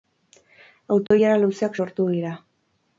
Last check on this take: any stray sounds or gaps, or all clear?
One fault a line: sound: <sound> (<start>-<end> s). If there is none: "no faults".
sound: dropout (1.1-1.1 s)